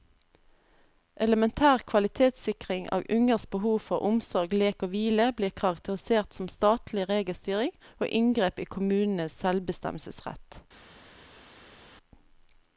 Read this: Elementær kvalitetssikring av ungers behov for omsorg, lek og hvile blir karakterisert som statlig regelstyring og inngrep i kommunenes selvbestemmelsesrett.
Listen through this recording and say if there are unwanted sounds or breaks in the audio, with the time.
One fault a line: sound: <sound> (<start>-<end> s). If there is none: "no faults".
no faults